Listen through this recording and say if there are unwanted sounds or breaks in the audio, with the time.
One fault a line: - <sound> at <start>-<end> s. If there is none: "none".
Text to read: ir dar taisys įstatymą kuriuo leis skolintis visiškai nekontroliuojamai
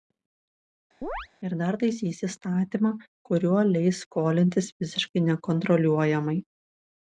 - chirp at 1.0-1.3 s